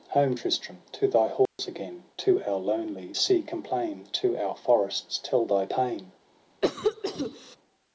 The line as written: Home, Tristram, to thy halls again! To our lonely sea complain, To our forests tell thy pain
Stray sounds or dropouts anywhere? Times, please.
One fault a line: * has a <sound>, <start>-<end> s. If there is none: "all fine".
* has a dropout, 1.5-1.6 s
* has a cough, 6.6-7.6 s